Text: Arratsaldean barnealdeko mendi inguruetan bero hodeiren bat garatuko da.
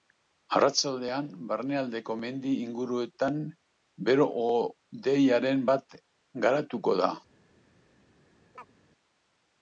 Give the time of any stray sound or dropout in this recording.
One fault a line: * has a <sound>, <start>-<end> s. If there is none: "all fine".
* has a chirp, 8.5-8.7 s